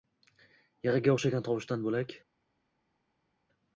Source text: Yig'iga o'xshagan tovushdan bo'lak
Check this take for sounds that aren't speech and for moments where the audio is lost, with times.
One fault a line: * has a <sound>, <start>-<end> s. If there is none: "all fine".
all fine